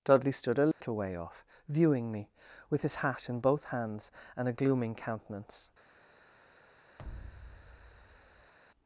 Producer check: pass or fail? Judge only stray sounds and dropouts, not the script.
fail